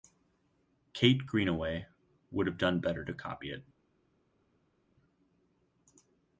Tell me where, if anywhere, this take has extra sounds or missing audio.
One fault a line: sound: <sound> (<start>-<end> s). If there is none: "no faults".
no faults